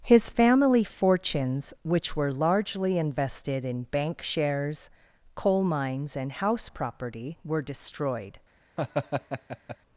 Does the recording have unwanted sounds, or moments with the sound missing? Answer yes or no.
yes